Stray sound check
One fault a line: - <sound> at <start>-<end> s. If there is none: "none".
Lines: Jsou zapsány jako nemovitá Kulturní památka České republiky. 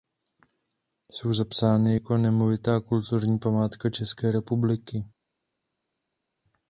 none